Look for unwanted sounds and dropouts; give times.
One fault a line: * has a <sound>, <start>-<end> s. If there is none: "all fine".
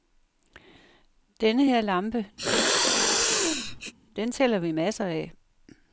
* has a sneeze, 2.4-3.9 s